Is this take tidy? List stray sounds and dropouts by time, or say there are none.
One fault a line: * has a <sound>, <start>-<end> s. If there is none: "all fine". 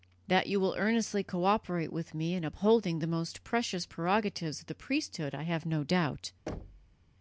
* has a thud, 6.5-7.0 s